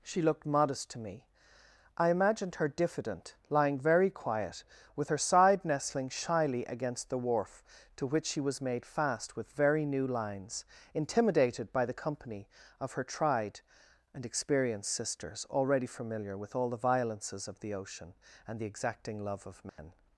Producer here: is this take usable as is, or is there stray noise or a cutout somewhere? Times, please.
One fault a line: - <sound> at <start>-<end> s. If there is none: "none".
- dropout at 19.7-19.8 s